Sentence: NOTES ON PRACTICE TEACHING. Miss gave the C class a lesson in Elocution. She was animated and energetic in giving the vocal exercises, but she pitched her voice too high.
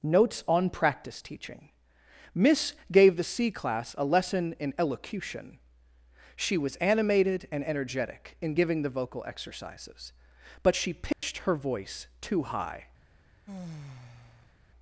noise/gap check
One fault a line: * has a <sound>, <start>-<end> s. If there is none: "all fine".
* has a dropout, 11.1-11.2 s
* has a sigh, 13.5-14.5 s